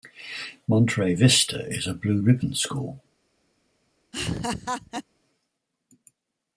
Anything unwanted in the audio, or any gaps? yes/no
yes